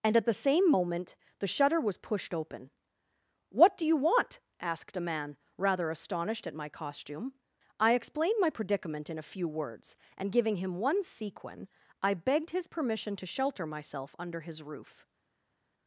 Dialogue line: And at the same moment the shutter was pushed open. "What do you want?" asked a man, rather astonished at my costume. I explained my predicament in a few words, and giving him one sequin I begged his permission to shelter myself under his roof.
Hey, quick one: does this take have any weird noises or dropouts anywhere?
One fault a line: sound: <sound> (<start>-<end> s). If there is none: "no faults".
no faults